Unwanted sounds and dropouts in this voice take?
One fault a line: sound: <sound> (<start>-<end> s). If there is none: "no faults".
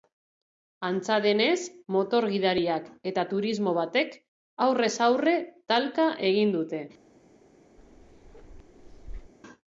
sound: bark (7.8-9.3 s)